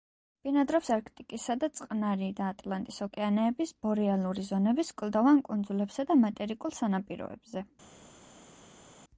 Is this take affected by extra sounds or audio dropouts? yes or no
no